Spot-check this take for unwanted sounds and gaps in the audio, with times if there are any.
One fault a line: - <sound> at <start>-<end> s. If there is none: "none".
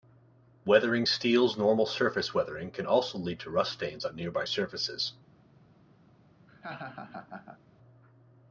- laugh at 6.5-7.6 s